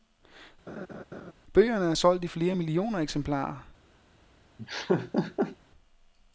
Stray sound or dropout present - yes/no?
yes